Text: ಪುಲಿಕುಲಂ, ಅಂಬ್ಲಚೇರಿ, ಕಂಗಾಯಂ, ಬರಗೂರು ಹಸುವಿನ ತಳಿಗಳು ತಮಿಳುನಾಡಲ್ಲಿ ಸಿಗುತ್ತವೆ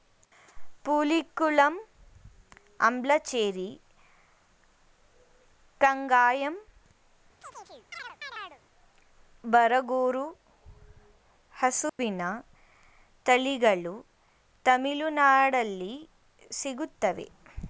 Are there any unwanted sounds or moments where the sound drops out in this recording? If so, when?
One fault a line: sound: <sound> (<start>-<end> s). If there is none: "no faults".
sound: chirp (7.4-8.6 s)
sound: dropout (11.9-12.0 s)